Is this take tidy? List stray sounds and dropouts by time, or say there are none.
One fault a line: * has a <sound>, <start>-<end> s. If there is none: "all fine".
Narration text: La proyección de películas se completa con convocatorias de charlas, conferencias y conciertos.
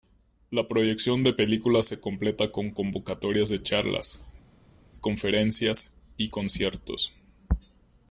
all fine